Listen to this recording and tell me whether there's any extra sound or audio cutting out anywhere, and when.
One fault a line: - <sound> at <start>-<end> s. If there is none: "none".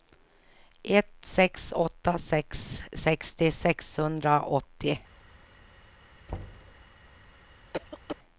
- thud at 6.3-6.8 s
- cough at 7.7-8.2 s